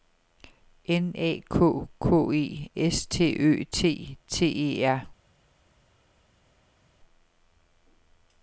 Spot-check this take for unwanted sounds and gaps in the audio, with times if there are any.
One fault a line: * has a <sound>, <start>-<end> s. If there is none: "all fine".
all fine